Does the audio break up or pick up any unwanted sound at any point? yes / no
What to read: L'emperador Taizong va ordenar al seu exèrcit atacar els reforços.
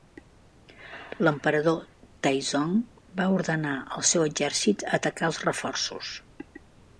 no